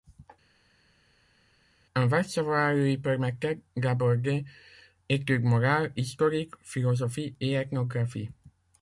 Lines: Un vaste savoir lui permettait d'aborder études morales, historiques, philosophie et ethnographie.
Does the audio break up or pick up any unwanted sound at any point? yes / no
no